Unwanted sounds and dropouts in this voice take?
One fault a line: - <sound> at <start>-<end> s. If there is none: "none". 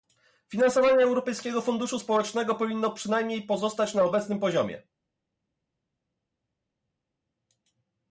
none